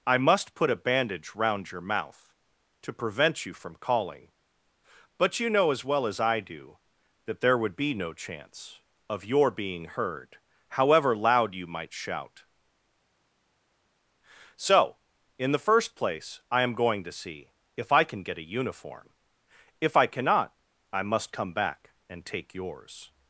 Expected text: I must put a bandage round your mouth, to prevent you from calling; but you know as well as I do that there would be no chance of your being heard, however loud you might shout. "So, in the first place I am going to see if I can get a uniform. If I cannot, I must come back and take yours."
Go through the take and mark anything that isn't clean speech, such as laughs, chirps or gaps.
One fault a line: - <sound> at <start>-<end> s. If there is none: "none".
none